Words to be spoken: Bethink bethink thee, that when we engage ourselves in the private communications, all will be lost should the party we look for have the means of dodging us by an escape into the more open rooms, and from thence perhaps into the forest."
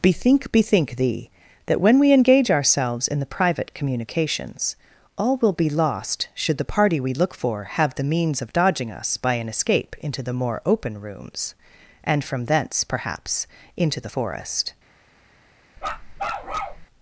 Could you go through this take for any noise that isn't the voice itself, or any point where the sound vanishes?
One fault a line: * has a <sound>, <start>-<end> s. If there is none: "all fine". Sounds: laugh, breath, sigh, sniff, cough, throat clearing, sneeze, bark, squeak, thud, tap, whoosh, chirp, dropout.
* has a bark, 15.8-16.9 s